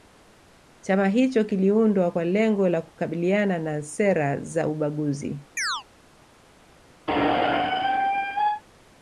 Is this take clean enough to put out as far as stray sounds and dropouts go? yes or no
no